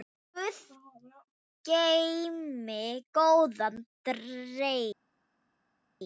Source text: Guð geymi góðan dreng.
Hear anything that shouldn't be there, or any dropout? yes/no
no